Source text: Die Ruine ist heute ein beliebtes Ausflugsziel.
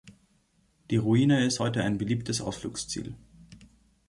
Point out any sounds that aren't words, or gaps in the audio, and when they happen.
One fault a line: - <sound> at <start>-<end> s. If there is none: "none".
none